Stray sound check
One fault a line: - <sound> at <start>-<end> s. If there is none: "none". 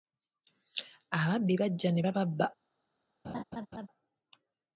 - laugh at 3.2-3.9 s